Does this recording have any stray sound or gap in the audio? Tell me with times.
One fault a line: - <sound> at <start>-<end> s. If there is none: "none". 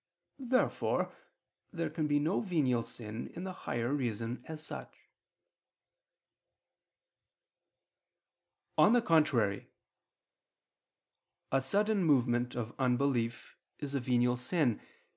none